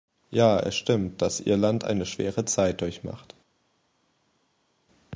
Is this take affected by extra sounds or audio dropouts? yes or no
no